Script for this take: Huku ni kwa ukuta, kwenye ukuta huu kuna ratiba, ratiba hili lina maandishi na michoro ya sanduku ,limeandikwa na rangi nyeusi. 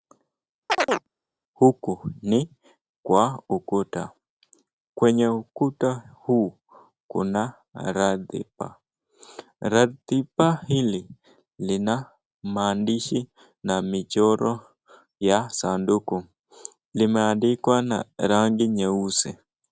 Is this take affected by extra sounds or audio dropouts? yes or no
yes